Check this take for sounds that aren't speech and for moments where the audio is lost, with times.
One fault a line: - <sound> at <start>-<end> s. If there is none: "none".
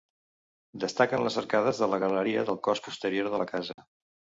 - dropout at 3.7-3.8 s